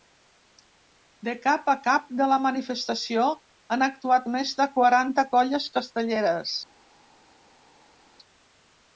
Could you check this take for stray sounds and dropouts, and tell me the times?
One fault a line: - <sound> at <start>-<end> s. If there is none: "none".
none